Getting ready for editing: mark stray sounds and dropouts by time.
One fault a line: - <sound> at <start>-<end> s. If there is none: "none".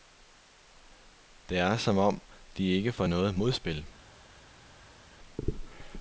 none